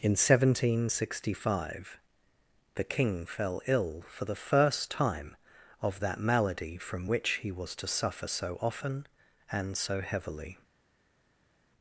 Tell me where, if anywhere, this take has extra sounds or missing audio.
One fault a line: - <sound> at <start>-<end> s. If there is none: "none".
none